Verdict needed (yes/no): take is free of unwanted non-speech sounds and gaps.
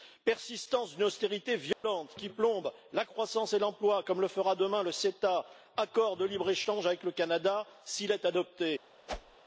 no